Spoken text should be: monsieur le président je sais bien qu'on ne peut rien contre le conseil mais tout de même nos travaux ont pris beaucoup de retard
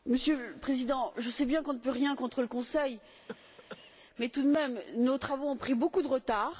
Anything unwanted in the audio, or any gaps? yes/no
yes